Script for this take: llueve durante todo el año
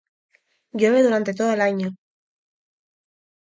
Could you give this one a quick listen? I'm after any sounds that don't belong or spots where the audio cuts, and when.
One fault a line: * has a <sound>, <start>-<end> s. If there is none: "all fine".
all fine